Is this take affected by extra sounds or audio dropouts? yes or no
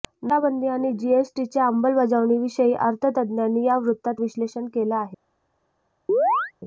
yes